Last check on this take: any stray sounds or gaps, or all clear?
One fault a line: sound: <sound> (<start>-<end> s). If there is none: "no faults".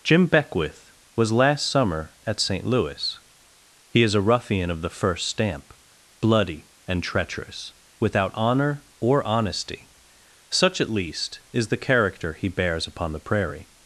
no faults